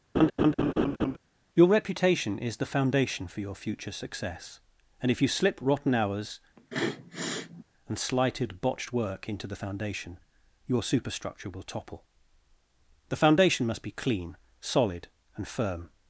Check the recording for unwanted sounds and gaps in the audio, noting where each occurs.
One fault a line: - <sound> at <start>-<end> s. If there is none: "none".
- laugh at 0.1-1.2 s
- sniff at 6.6-7.6 s